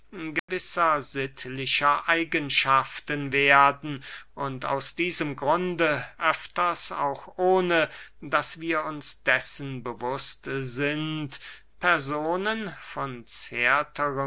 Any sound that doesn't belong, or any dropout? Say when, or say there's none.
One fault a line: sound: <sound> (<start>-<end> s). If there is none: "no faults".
sound: dropout (0.4-0.5 s)